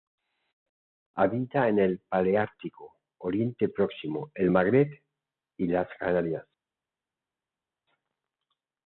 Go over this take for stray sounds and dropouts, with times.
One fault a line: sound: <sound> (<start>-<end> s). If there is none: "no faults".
no faults